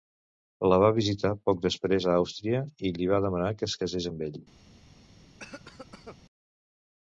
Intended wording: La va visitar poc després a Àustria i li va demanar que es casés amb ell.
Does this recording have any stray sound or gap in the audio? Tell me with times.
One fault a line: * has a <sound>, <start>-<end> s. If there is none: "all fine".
* has a cough, 5.4-6.2 s